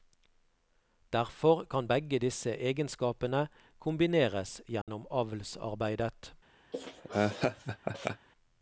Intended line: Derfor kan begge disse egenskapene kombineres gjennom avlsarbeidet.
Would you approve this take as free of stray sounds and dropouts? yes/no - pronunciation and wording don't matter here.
no